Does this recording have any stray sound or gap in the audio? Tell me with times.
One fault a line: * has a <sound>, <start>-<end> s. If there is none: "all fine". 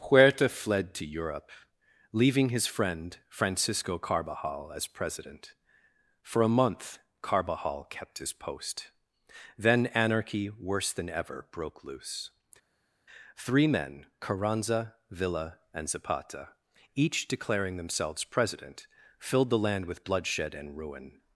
all fine